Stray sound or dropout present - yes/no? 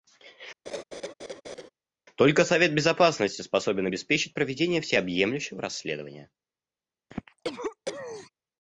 yes